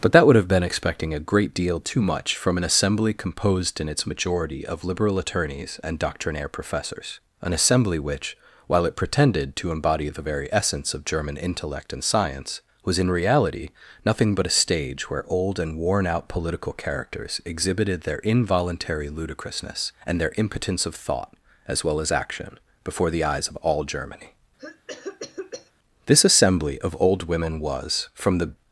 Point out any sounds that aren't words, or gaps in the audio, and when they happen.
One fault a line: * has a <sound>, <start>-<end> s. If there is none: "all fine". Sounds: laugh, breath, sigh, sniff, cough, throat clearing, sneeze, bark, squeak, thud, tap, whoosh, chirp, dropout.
* has a cough, 24.6-25.7 s